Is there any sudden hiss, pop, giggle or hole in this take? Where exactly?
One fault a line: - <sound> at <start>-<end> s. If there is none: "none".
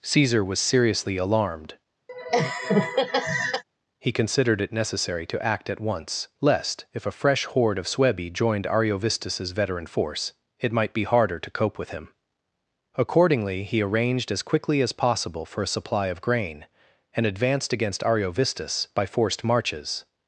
- laugh at 2.1-3.6 s